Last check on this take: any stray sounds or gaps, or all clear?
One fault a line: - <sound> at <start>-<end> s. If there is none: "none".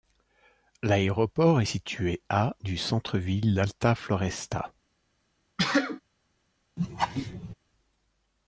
- sneeze at 5.6-6.0 s
- laugh at 6.8-7.5 s